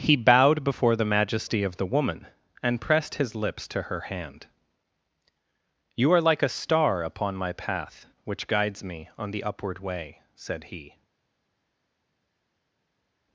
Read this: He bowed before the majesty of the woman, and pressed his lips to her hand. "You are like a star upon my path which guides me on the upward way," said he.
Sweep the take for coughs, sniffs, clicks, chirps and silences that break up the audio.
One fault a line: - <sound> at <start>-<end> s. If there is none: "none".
none